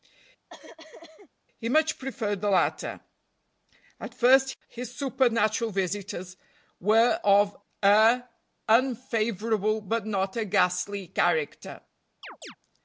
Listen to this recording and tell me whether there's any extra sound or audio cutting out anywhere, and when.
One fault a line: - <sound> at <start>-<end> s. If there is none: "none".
- cough at 0.5-1.3 s
- chirp at 12.2-12.6 s